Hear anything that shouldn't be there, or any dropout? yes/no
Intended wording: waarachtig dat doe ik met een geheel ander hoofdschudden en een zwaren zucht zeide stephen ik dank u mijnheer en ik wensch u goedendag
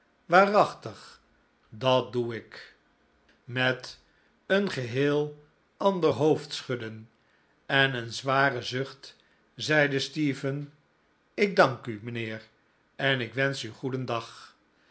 no